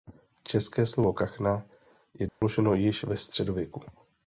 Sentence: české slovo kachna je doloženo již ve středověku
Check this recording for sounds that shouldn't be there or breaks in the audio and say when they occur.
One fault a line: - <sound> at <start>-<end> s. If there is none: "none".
- dropout at 2.3-2.4 s